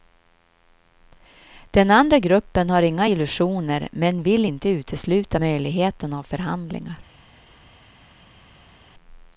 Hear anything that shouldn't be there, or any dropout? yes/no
no